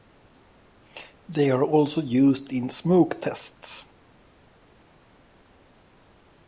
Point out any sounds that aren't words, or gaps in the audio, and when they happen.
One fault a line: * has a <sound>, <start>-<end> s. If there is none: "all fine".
all fine